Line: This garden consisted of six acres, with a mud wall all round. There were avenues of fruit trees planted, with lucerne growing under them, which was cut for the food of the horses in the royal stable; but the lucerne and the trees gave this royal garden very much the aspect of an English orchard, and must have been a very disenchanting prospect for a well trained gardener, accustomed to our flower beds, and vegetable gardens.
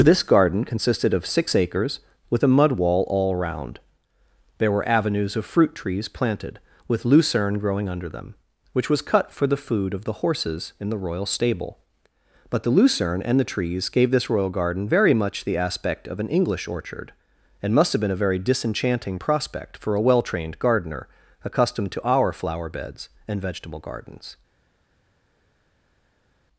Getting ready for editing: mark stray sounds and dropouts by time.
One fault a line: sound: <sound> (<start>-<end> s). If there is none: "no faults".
no faults